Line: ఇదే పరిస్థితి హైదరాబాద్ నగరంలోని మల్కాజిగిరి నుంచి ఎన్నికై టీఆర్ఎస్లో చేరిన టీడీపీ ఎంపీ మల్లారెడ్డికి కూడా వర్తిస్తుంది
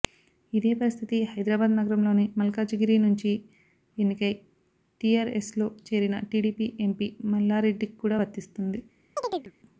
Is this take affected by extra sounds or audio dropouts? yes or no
yes